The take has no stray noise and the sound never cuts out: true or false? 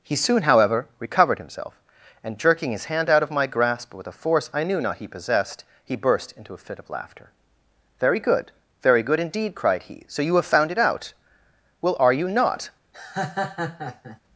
false